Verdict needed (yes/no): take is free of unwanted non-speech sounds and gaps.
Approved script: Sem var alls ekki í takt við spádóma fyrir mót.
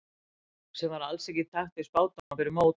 no